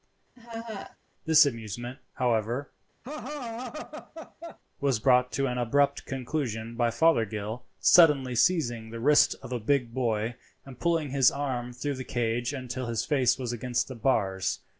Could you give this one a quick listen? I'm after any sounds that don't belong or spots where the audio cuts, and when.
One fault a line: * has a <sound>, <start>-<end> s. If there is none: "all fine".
* has a laugh, 0.4-1.0 s
* has a laugh, 3.0-4.6 s